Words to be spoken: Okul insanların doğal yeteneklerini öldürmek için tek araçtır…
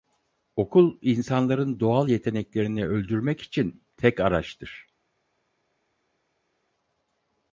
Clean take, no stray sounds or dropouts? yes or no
yes